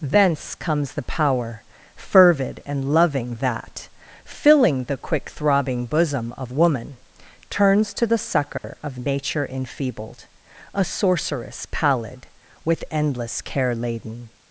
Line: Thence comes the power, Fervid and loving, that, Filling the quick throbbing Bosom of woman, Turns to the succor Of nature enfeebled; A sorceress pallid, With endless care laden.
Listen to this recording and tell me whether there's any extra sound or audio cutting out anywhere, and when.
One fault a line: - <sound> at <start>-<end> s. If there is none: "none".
- dropout at 8.6-8.6 s